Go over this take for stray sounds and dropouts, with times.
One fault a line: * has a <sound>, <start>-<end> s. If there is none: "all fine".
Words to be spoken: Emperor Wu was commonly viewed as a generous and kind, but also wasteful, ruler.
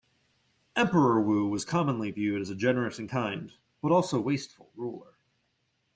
all fine